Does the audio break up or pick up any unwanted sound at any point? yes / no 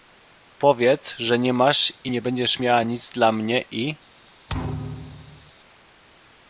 yes